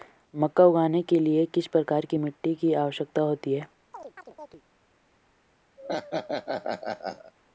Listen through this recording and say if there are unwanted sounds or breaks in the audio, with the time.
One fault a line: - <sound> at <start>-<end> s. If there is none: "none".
- chirp at 3.9-4.6 s
- laugh at 5.8-7.3 s